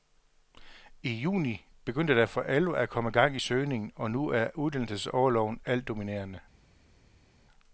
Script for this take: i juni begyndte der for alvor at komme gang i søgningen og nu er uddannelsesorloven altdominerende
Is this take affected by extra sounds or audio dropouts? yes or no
no